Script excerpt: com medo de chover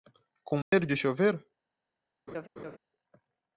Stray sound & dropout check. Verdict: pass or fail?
fail